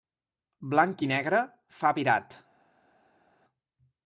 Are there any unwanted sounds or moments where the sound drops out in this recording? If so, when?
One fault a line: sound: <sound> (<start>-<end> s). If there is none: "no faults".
no faults